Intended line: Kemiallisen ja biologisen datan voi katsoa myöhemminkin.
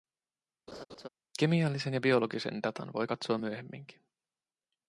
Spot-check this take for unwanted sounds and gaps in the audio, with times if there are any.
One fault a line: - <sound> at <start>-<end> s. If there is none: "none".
- laugh at 0.7-1.1 s